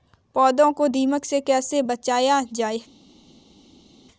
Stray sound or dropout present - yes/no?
no